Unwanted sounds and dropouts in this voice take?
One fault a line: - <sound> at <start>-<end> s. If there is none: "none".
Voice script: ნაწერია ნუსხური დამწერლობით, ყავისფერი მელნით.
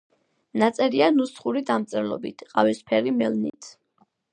- dropout at 3.5-3.5 s